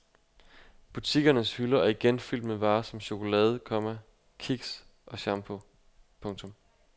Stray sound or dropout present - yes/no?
no